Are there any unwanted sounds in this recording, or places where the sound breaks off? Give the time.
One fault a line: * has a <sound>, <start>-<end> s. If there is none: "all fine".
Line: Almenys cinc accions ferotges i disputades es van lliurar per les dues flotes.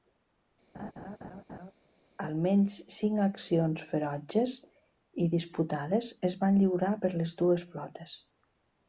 * has a laugh, 0.7-1.7 s